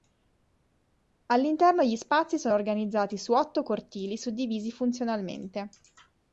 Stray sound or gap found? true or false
false